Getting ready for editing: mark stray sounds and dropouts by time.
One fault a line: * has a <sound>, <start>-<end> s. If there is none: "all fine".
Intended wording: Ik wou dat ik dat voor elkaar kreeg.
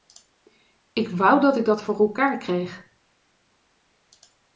all fine